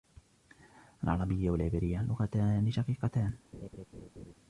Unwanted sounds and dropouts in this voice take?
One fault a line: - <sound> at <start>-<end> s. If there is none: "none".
- laugh at 3.5-4.3 s